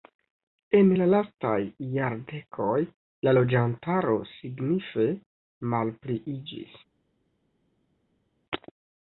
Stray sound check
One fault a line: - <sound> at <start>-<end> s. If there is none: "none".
none